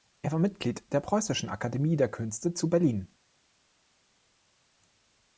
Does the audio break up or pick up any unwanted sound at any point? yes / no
no